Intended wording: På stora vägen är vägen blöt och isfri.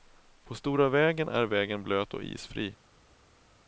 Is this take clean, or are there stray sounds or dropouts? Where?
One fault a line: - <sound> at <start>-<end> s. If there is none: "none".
none